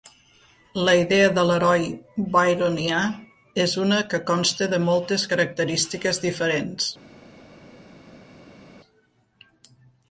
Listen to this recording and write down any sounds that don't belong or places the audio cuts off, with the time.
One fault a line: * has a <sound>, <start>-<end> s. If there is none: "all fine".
all fine